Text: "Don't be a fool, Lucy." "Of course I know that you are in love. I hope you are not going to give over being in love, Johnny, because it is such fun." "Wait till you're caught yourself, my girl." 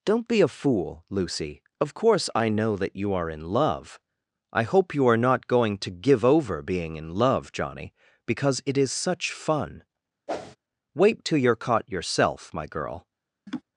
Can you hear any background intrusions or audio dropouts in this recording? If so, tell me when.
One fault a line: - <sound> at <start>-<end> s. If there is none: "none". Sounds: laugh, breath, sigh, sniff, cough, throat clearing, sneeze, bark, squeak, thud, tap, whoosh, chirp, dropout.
- whoosh at 10.3-10.6 s
- laugh at 13.5-13.6 s